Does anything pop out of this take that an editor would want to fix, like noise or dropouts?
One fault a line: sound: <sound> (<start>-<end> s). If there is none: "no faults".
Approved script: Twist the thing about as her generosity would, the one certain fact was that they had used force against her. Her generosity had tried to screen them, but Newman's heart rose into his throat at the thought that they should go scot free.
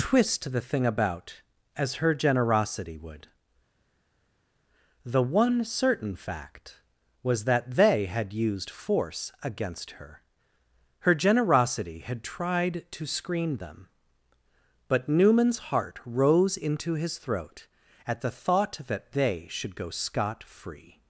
no faults